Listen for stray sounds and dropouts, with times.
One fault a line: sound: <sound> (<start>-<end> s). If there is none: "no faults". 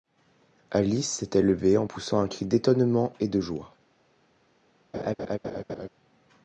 sound: laugh (4.9-5.9 s)